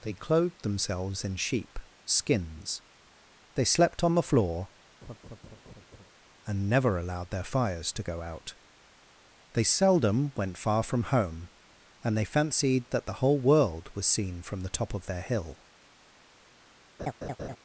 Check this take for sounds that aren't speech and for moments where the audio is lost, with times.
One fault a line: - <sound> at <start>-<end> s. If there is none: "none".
- laugh at 5.0-6.1 s
- laugh at 17.0-17.6 s